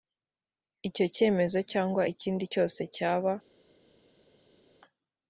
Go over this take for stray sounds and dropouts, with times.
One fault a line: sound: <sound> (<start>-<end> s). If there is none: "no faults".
no faults